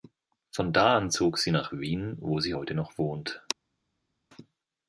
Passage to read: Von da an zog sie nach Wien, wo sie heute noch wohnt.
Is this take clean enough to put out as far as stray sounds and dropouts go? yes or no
yes